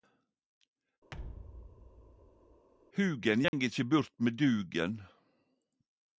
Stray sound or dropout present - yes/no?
yes